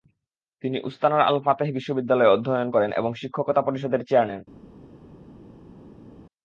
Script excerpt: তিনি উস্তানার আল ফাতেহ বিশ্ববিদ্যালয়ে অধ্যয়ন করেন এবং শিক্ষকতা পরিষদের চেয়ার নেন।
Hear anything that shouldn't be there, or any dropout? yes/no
no